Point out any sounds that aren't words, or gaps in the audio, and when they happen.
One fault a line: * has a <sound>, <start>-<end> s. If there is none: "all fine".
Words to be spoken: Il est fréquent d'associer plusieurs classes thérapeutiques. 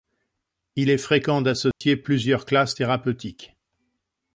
* has a dropout, 1.7-1.8 s